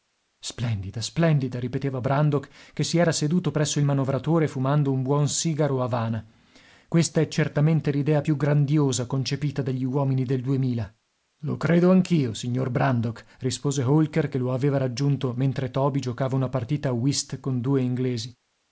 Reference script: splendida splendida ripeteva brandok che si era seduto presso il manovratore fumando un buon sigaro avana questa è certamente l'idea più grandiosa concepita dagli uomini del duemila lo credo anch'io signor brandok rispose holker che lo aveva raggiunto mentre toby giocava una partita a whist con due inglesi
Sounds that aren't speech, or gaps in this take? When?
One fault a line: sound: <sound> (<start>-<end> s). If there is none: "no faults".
no faults